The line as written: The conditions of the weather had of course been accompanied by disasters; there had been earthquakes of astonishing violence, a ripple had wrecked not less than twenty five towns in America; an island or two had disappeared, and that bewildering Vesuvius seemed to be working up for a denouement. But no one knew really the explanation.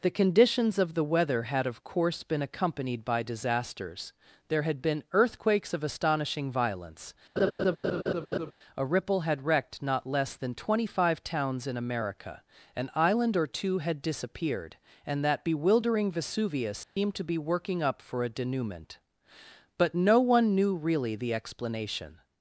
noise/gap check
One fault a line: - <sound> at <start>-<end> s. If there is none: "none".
- laugh at 7.4-8.5 s
- dropout at 16.8-17.0 s